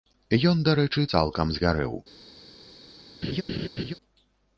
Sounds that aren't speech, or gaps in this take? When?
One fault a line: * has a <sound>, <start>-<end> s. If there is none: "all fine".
* has a laugh, 3.2-3.9 s